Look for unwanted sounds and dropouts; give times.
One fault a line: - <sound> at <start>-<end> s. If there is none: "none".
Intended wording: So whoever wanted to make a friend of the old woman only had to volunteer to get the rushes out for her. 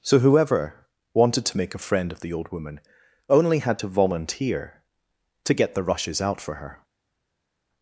none